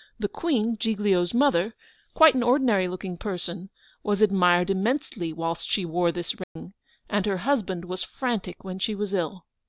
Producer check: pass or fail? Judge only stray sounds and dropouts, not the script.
fail